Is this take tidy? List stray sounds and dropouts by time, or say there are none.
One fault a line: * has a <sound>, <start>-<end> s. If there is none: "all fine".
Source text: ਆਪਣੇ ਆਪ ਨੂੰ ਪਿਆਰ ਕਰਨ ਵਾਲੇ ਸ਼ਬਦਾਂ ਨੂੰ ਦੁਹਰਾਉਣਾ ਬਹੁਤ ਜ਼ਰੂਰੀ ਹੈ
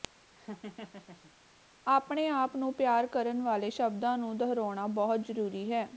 * has a laugh, 0.4-1.3 s